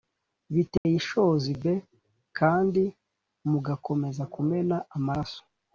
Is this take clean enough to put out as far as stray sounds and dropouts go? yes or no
no